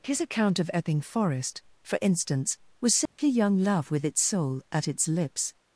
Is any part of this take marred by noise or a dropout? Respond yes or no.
yes